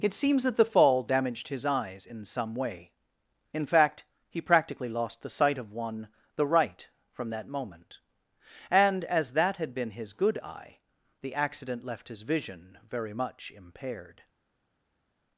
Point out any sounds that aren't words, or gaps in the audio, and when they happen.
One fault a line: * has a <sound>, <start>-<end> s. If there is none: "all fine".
all fine